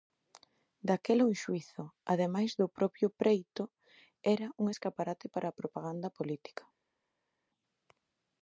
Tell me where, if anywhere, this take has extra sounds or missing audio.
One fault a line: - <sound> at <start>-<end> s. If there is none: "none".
none